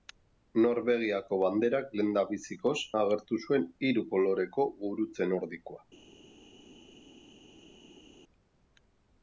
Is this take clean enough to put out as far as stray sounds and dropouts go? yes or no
yes